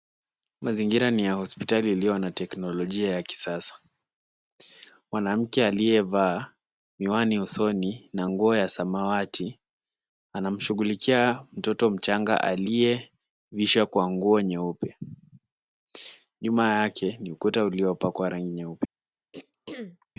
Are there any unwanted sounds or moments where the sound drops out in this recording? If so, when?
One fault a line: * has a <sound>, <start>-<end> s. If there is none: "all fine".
* has a throat clearing, 19.3-20.1 s